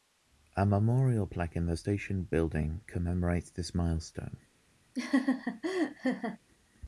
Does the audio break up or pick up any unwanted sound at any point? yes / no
yes